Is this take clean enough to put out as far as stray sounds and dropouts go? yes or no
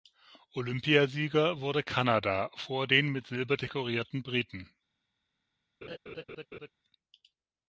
no